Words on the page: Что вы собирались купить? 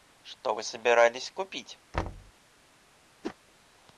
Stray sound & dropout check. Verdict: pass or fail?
fail